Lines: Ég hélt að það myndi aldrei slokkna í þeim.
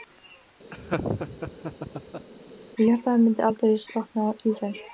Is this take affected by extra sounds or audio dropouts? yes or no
yes